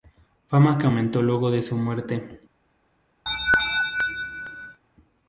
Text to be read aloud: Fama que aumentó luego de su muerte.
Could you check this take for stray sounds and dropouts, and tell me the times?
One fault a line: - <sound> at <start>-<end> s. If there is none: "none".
- laugh at 3.3-4.8 s